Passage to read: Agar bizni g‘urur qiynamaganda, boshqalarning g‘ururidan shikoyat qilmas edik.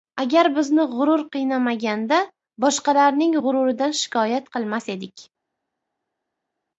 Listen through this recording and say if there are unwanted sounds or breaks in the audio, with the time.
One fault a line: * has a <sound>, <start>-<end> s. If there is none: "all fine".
all fine